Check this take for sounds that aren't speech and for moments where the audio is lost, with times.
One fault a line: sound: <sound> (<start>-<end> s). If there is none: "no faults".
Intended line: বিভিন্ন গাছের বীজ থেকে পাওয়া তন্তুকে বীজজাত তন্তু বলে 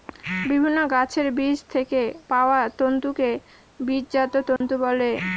sound: dropout (4.6-4.6 s)